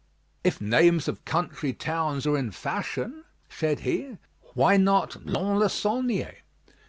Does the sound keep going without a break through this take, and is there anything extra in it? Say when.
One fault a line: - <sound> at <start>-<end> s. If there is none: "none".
none